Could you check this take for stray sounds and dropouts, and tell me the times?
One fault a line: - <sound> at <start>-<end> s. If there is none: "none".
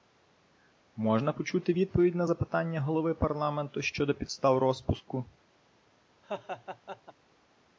- laugh at 6.2-7.1 s